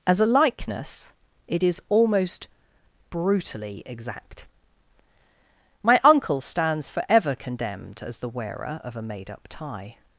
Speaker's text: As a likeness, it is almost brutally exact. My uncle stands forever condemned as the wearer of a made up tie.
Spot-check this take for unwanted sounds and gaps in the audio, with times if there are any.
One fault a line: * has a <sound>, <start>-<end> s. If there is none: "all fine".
all fine